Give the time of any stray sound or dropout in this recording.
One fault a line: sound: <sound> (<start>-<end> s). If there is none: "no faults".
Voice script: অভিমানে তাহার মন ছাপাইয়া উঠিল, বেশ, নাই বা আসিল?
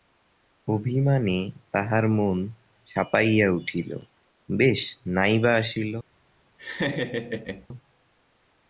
sound: laugh (6.6-7.7 s)